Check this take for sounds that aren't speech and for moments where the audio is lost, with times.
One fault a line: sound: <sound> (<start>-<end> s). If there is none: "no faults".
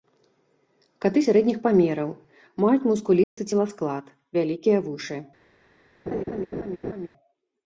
sound: dropout (3.2-3.4 s)
sound: laugh (6.1-7.1 s)